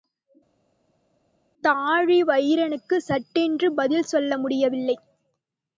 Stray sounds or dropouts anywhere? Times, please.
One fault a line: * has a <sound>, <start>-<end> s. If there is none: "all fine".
all fine